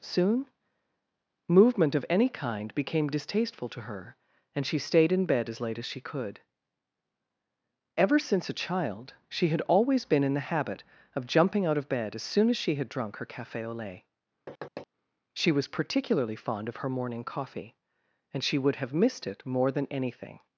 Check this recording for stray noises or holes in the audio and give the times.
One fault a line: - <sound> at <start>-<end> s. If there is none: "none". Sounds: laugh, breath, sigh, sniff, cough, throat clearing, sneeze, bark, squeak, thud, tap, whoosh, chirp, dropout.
- thud at 14.5-14.9 s